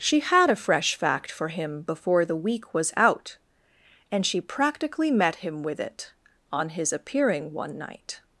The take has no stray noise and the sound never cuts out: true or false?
true